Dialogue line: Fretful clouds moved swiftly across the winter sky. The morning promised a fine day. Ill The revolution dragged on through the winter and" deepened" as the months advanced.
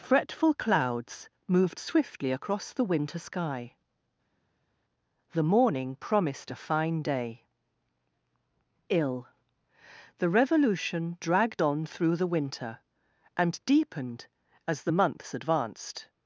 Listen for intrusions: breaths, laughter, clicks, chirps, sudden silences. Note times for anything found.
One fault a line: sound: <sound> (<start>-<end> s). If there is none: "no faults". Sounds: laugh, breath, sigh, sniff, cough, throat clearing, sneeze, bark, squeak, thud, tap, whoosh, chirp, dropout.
no faults